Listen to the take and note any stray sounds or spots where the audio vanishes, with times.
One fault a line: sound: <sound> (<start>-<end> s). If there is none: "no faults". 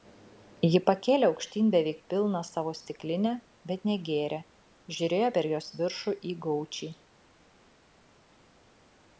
no faults